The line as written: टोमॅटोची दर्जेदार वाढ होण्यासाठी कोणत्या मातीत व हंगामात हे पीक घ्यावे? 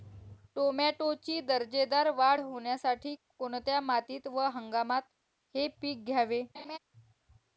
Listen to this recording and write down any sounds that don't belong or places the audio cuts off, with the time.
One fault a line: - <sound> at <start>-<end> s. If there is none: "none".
- laugh at 6.5-6.8 s